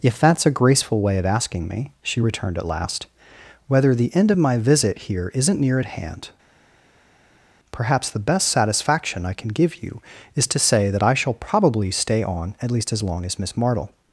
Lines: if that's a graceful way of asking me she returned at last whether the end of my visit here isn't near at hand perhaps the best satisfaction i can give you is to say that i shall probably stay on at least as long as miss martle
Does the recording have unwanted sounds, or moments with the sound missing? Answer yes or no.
no